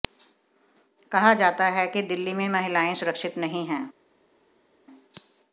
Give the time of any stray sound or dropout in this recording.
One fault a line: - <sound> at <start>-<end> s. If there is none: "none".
none